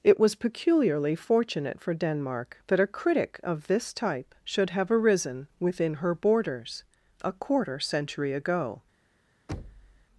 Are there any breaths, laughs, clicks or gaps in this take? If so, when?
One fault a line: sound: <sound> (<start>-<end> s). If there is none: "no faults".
sound: thud (9.5-10.1 s)